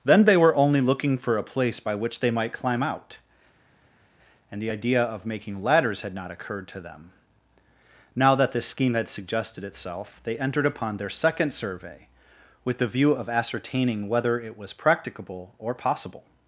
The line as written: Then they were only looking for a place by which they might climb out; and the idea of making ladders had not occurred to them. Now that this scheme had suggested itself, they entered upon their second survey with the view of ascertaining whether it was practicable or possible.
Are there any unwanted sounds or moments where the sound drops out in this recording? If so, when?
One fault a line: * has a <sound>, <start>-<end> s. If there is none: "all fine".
all fine